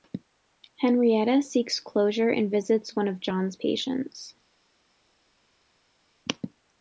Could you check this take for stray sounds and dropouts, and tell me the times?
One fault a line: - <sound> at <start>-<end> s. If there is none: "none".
none